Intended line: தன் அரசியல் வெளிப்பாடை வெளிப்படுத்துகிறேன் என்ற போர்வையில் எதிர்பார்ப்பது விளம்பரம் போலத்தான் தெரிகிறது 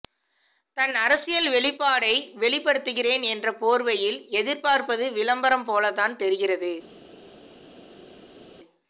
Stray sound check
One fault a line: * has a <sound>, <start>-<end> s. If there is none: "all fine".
all fine